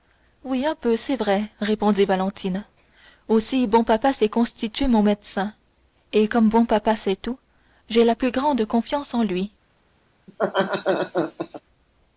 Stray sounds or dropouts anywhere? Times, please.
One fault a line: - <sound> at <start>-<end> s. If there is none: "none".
- laugh at 10.3-11.6 s